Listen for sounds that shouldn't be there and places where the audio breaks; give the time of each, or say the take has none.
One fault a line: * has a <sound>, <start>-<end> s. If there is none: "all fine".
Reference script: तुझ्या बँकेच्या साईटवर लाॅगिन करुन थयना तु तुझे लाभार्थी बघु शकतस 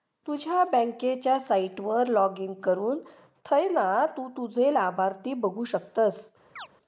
* has a chirp, 6.6-6.7 s